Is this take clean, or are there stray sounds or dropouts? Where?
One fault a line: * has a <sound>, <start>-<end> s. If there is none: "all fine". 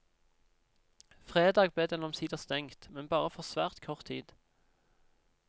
all fine